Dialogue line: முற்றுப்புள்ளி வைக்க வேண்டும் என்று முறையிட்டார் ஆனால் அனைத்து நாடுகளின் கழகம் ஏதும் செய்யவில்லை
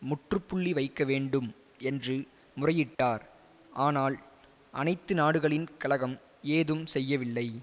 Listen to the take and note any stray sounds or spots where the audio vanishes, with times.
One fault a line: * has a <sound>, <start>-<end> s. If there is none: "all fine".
* has a dropout, 2.9-3.0 s